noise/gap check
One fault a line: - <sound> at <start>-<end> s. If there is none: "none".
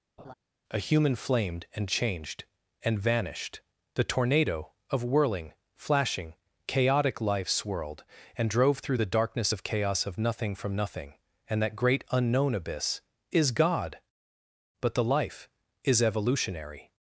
- laugh at 0.2-0.3 s